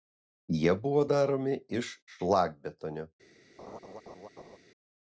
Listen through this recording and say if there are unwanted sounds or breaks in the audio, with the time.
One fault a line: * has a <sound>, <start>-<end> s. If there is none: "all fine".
* has a laugh, 3.6-4.6 s